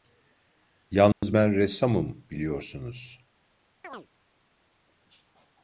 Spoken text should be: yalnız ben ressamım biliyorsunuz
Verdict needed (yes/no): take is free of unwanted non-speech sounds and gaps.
no